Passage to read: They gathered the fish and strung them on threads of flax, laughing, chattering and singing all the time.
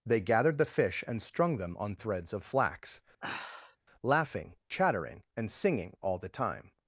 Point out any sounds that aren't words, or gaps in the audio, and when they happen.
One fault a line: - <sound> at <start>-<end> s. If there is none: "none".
- sigh at 3.2-3.8 s